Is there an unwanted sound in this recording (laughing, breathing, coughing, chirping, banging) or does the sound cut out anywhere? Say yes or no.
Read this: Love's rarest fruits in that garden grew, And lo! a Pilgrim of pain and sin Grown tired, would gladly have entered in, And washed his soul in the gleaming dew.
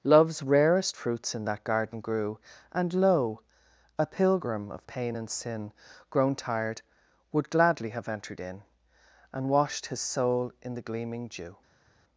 no